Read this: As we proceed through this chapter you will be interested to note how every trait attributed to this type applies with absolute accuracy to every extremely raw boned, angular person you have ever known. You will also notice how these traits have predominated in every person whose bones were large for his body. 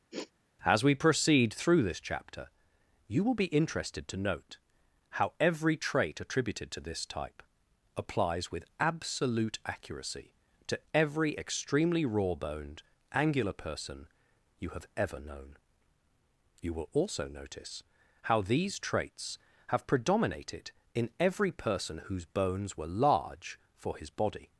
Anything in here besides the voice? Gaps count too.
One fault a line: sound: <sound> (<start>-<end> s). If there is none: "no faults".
sound: sniff (0.1-0.3 s)